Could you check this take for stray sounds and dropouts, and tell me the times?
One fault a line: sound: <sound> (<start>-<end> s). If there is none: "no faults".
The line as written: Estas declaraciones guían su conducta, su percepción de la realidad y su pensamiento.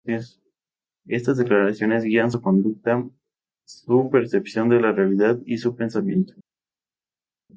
no faults